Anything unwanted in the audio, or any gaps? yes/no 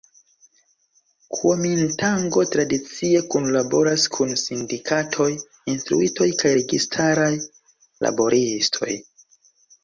no